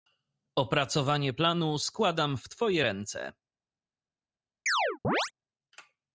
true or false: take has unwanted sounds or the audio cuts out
true